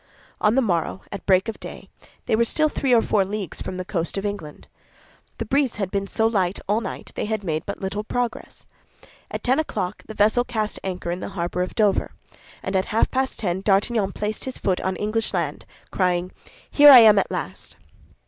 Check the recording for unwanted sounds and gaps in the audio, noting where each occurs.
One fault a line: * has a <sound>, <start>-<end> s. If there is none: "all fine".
all fine